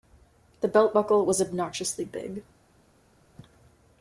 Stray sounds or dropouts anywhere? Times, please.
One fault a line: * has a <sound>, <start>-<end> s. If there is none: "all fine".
all fine